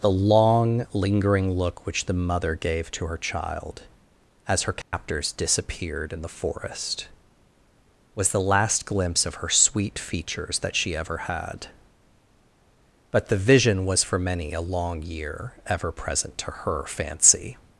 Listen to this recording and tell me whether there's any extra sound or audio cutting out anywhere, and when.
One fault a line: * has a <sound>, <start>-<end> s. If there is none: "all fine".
* has a dropout, 4.8-4.9 s